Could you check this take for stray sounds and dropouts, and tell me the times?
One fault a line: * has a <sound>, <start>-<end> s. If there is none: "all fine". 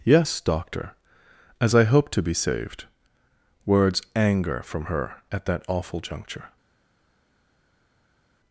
all fine